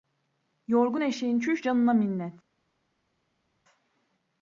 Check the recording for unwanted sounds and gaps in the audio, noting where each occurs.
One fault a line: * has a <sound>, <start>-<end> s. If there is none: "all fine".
all fine